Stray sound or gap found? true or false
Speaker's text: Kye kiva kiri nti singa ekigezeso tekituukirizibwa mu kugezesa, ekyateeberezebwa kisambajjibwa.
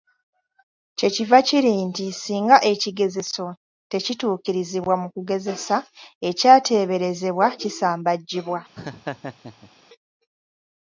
true